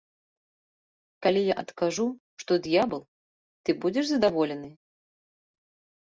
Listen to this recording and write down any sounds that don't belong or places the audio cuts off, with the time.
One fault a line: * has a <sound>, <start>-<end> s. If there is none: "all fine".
all fine